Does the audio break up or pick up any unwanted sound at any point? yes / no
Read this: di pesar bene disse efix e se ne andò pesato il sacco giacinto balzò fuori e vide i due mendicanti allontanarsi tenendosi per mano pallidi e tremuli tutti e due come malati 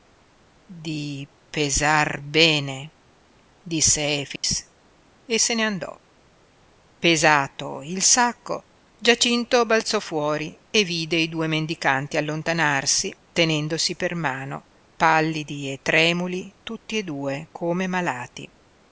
yes